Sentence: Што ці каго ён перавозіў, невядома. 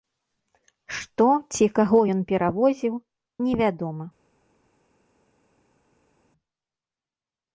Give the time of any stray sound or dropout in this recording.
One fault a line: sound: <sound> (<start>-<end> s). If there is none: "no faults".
no faults